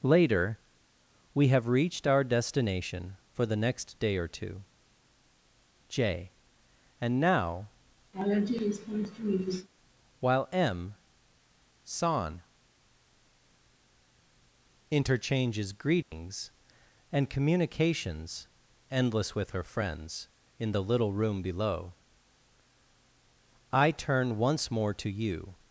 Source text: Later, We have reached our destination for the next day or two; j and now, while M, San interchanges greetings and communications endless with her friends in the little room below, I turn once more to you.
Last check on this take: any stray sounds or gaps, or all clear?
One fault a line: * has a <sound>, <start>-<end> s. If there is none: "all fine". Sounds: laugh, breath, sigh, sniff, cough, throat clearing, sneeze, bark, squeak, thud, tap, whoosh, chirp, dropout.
* has a laugh, 8.1-9.7 s
* has a dropout, 16.0-16.1 s